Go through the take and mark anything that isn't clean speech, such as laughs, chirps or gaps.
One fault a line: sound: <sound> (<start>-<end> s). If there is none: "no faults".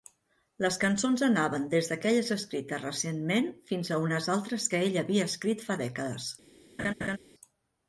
sound: laugh (6.8-7.2 s)